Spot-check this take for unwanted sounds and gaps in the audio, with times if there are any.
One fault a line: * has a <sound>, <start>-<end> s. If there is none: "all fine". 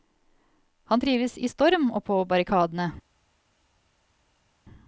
all fine